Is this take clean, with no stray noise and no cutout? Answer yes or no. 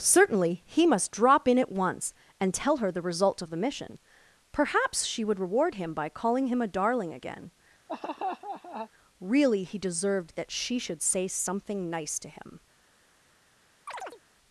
no